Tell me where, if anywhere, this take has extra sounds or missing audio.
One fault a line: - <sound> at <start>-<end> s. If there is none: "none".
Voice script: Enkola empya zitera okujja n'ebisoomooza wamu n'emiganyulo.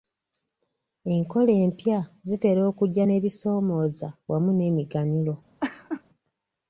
- laugh at 5.6-6.0 s